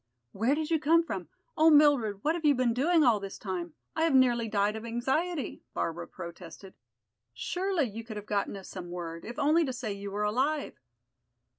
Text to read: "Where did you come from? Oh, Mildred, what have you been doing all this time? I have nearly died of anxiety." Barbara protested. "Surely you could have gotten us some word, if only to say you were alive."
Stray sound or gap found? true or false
false